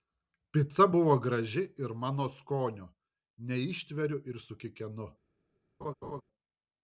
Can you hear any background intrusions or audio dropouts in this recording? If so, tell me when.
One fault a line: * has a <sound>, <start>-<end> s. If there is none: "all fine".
* has a laugh, 5.8-6.2 s